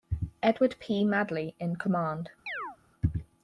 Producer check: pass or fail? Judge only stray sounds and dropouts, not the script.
fail